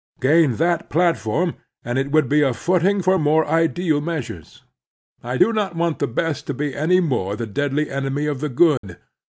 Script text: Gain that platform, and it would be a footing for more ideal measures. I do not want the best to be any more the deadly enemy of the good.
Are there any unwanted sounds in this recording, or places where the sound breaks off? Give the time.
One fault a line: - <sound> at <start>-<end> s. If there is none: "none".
- dropout at 8.8-8.8 s